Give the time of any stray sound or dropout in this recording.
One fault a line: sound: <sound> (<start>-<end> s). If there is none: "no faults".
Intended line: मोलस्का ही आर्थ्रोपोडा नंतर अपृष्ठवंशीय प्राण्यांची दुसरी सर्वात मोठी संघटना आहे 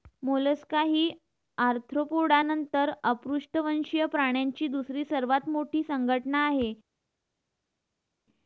no faults